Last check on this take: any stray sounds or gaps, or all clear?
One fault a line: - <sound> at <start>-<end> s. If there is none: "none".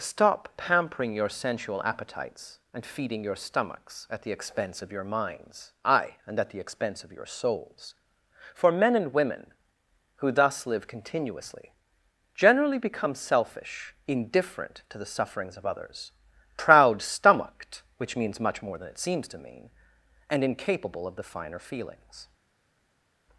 none